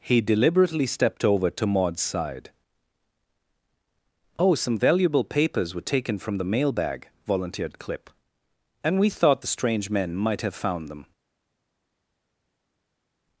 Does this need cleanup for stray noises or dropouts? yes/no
no